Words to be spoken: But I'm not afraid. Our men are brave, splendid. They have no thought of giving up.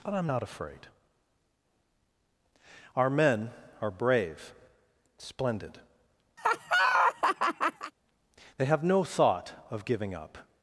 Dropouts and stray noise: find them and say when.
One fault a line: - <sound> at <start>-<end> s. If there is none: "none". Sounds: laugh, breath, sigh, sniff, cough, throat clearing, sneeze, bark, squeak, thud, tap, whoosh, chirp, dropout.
- laugh at 6.4-7.9 s